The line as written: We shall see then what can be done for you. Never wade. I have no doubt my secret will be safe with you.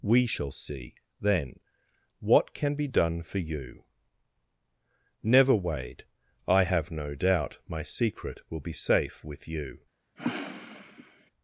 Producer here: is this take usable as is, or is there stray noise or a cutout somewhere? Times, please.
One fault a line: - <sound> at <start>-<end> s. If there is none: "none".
- sniff at 10.2-11.3 s